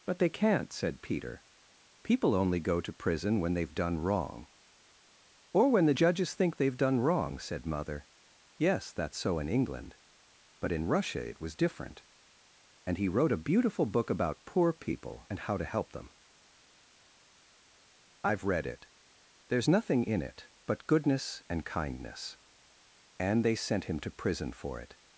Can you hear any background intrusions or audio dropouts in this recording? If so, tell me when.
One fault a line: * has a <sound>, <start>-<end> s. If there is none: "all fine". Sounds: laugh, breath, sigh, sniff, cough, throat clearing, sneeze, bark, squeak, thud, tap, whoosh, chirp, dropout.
all fine